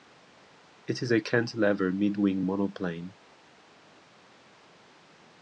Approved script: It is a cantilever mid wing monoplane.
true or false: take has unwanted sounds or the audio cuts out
false